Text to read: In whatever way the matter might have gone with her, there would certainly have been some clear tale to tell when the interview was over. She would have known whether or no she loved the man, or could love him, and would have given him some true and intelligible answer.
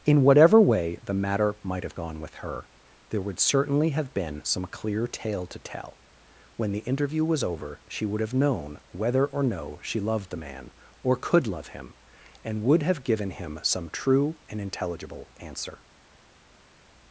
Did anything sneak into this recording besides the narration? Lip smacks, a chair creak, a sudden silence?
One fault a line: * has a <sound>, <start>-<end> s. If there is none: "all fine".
all fine